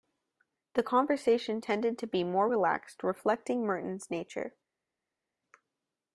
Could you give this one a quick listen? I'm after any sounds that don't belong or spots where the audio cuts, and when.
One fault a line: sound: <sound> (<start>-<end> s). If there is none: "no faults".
no faults